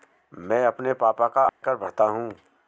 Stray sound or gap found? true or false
true